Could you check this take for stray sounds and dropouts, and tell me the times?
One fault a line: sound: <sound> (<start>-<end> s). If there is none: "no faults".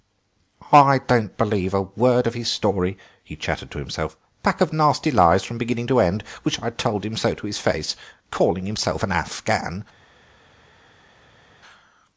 no faults